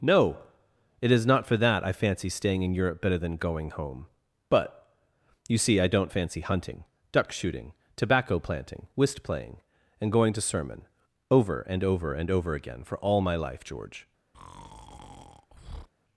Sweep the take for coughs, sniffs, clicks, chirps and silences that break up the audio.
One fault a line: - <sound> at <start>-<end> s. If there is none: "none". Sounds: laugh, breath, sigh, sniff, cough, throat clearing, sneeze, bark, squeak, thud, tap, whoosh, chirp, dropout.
- breath at 14.3-15.9 s